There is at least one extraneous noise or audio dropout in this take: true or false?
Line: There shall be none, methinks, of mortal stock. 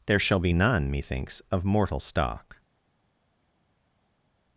false